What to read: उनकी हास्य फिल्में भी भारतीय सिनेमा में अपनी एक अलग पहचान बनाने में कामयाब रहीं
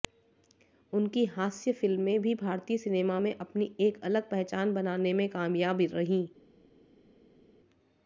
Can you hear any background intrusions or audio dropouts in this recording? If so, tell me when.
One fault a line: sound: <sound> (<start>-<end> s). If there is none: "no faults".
no faults